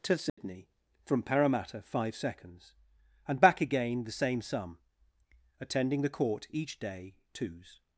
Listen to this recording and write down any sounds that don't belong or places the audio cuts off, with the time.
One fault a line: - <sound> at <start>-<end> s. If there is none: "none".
- dropout at 0.3-0.4 s